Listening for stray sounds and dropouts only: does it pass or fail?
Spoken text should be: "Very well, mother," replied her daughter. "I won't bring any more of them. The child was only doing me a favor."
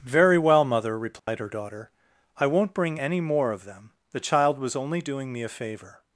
fail